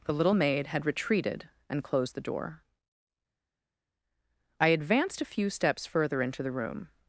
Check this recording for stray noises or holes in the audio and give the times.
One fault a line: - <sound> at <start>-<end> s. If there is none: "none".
none